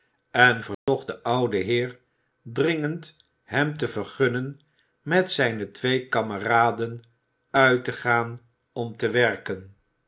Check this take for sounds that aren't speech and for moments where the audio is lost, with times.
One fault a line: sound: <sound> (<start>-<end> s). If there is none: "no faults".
sound: dropout (0.7-0.9 s)